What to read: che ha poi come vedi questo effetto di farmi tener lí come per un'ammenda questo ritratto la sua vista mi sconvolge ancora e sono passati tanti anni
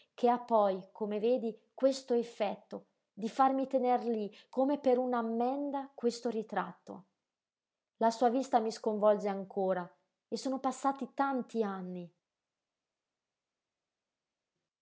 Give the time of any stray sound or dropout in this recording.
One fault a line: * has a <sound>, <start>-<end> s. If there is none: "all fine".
all fine